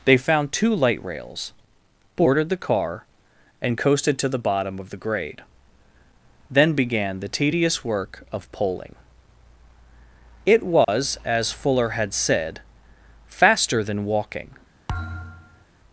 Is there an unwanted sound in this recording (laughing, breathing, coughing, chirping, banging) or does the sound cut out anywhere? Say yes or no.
yes